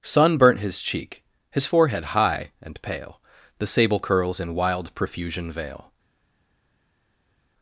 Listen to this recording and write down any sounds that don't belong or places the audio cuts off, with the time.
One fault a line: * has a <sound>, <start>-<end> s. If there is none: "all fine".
all fine